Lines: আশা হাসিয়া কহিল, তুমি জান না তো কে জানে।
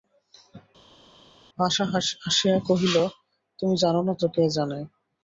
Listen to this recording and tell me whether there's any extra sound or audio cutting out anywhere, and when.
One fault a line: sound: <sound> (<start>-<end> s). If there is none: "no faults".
no faults